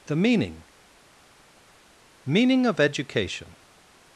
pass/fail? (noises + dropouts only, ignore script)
pass